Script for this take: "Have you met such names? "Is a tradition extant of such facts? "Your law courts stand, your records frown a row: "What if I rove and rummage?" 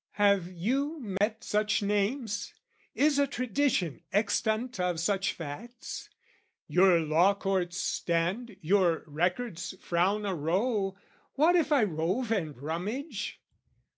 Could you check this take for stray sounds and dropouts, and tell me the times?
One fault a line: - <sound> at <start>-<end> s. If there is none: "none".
- dropout at 1.2-1.2 s